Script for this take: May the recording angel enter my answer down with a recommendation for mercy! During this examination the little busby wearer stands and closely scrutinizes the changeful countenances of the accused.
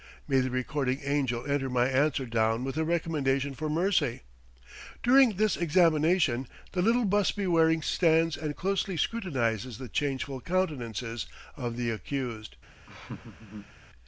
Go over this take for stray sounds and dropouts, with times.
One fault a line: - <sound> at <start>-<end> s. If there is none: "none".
- laugh at 12.9-13.7 s